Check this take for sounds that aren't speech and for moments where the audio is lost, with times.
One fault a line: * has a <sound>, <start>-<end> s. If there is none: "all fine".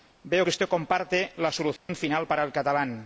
* has a dropout, 1.8-1.9 s